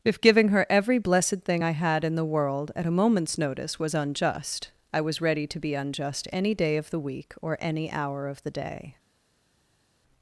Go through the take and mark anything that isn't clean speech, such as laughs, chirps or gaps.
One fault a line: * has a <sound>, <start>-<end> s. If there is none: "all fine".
all fine